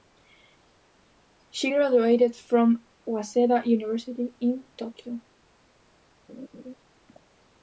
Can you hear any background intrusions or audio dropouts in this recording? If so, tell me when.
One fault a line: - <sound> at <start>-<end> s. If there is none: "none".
- laugh at 6.3-6.8 s